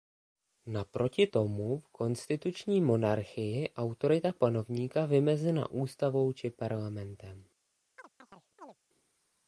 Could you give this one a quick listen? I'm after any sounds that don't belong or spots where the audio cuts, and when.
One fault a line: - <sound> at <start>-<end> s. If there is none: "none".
- chirp at 8.0-8.8 s